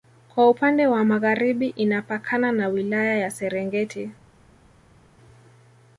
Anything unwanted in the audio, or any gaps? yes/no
no